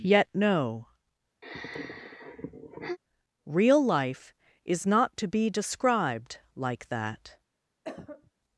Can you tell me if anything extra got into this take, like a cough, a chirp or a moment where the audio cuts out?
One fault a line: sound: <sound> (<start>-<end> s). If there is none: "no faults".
sound: sigh (1.4-3.0 s)
sound: cough (7.8-8.3 s)